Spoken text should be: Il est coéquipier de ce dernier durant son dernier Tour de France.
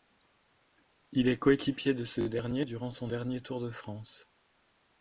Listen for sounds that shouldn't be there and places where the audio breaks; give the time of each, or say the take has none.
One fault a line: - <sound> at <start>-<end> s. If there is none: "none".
none